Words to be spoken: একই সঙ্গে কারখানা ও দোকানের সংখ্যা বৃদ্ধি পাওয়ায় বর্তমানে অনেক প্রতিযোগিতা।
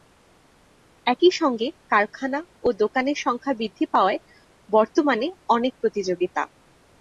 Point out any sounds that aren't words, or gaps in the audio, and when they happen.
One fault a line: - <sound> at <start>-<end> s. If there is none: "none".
none